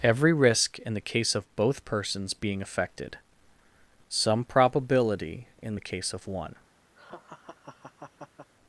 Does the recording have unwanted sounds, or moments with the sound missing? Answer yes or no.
yes